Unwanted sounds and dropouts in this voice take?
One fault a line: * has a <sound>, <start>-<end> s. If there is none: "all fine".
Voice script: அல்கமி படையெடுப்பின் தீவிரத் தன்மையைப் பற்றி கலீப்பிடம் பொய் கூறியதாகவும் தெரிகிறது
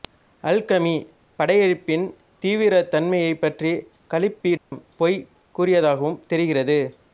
* has a dropout, 4.6-4.7 s